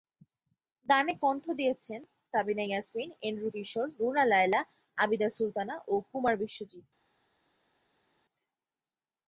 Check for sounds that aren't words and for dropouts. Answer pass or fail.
pass